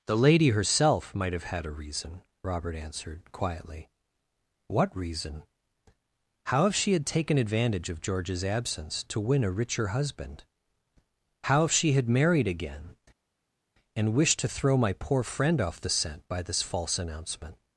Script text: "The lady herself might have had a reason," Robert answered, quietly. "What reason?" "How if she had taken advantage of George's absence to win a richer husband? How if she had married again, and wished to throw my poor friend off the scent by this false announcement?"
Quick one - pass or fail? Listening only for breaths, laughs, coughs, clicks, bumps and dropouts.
pass